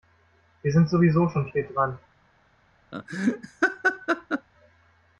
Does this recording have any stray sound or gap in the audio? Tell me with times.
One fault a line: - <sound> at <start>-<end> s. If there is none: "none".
- laugh at 2.9-4.5 s